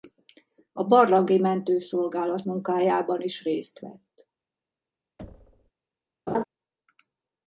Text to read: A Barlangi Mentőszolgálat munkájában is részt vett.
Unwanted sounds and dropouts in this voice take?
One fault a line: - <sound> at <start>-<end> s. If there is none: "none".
- thud at 5.2-5.7 s
- laugh at 6.3-6.4 s